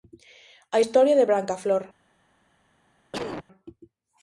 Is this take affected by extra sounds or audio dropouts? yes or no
yes